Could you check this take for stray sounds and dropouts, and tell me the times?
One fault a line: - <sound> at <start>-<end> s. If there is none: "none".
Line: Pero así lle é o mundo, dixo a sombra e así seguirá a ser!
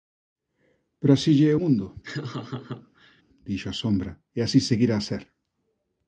- laugh at 2.0-3.2 s